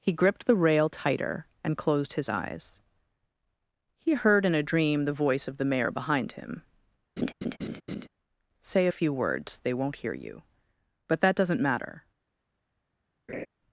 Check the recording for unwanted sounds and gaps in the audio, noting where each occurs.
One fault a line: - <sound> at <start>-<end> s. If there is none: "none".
- laugh at 7.2-8.1 s
- laugh at 13.3-13.5 s